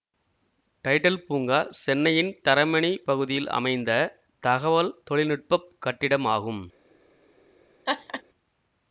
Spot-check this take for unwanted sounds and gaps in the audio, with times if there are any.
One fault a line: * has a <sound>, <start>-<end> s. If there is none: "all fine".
* has a laugh, 7.9-8.2 s